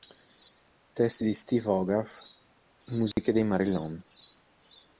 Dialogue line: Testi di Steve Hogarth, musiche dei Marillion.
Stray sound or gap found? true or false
true